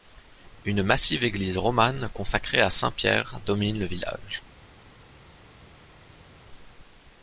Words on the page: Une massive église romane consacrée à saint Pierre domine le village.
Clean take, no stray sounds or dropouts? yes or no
yes